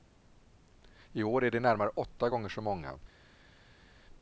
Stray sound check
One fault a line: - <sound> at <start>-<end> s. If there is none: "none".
none